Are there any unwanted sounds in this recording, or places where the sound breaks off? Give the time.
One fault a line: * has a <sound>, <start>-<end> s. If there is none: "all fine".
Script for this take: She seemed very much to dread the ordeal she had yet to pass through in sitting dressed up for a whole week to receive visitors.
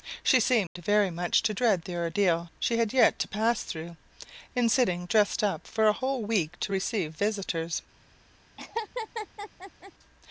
* has a dropout, 0.7-0.8 s
* has a laugh, 8.6-9.9 s